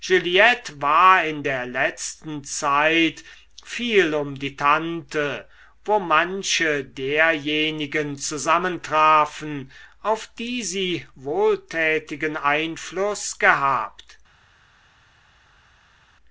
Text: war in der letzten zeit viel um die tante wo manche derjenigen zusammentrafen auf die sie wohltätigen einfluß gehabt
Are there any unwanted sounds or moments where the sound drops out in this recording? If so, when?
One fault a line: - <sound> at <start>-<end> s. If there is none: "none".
none